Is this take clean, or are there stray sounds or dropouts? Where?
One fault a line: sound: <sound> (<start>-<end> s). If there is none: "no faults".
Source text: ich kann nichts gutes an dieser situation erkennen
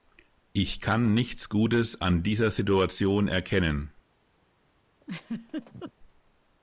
sound: laugh (5.0-5.9 s)